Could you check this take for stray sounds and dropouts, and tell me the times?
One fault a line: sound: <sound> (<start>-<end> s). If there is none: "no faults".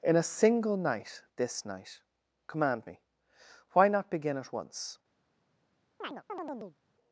sound: chirp (6.0-6.8 s)